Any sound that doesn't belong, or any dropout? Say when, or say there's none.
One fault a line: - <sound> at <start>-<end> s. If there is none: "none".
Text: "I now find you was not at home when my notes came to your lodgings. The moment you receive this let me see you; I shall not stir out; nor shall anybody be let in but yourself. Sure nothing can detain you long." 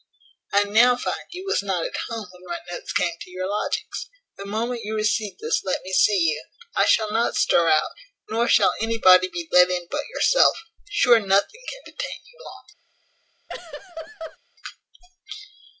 - laugh at 13.5-14.4 s